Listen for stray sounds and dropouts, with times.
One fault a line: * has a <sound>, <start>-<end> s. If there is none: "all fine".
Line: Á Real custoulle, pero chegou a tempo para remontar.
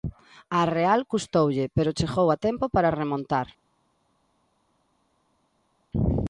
all fine